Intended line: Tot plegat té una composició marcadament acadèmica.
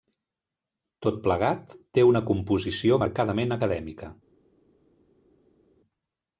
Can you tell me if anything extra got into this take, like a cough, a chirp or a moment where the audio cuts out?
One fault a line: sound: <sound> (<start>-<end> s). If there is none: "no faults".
no faults